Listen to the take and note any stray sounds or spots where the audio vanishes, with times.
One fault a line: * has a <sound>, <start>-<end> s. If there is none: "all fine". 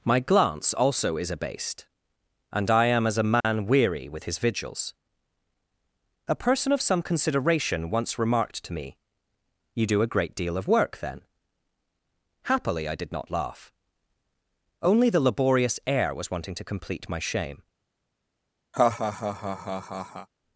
* has a dropout, 3.4-3.4 s
* has a laugh, 18.7-20.3 s